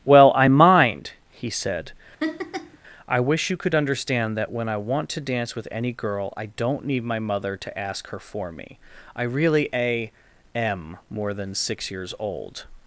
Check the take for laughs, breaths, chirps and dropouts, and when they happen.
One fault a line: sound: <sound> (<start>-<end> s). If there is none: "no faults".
sound: laugh (2.2-2.8 s)